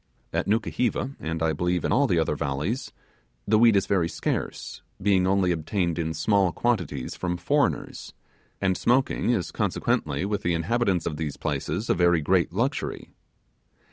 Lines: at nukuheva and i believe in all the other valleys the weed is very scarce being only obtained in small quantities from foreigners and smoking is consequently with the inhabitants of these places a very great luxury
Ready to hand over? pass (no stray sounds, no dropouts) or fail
pass